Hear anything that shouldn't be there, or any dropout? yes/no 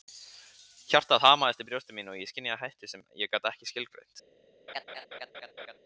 yes